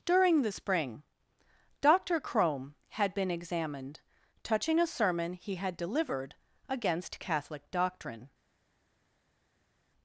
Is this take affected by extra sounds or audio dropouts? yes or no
no